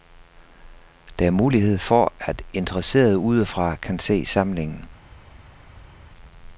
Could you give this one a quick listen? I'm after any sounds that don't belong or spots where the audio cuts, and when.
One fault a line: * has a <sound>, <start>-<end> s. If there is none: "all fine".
all fine